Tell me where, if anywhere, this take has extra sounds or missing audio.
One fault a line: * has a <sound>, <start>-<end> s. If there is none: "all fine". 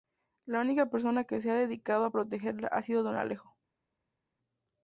all fine